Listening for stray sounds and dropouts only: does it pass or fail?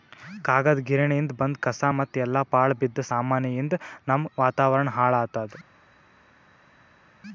pass